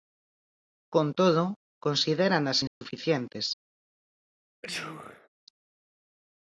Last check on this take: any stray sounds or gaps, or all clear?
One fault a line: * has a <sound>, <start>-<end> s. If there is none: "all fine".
* has a dropout, 2.7-2.8 s
* has a sneeze, 4.6-5.3 s